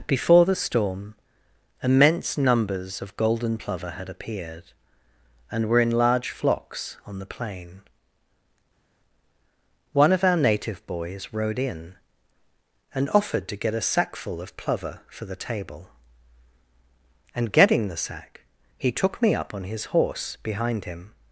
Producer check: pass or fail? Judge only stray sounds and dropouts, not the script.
pass